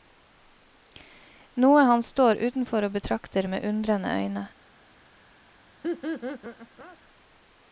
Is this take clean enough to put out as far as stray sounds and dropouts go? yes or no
no